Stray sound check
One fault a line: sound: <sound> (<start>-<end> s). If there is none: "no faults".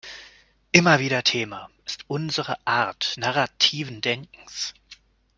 no faults